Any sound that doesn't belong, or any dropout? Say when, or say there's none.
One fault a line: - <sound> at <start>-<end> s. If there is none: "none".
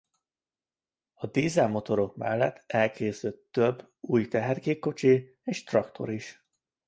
none